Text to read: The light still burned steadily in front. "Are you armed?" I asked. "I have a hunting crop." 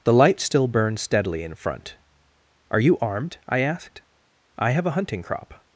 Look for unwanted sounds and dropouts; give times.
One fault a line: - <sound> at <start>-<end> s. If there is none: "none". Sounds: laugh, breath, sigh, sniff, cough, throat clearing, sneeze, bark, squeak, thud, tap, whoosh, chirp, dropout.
none